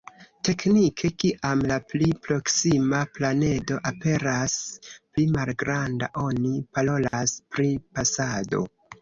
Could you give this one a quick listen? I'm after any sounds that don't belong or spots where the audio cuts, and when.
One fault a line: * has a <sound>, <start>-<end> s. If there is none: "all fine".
* has a dropout, 7.1-7.1 s